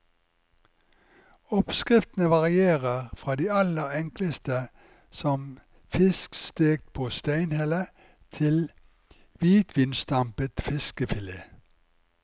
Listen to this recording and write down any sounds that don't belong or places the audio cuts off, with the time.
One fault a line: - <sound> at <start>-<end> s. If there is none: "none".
none